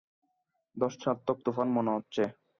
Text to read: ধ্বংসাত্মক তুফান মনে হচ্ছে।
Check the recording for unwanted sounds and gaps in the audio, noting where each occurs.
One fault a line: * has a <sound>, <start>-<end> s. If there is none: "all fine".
all fine